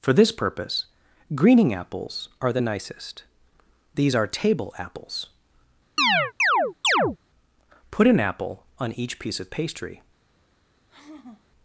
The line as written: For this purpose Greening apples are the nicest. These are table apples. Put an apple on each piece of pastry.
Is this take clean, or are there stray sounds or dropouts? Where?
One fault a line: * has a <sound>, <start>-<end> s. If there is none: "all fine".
* has a chirp, 6.0-7.2 s
* has a sigh, 10.9-11.4 s